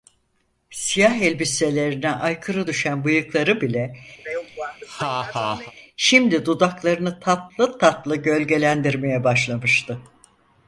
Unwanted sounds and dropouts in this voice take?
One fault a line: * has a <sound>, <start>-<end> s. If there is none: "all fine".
* has a laugh, 4.2-5.7 s